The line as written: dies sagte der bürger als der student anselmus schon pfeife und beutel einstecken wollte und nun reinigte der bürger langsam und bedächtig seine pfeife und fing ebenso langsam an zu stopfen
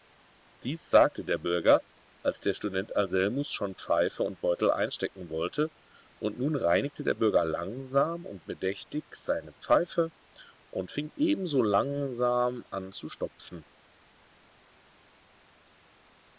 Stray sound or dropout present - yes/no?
no